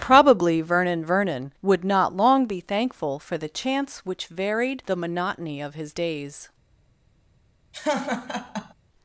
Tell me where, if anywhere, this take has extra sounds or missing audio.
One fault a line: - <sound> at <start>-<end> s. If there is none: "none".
- laugh at 7.7-8.7 s